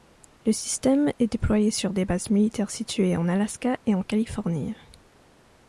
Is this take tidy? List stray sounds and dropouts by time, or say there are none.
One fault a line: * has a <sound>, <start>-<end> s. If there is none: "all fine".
all fine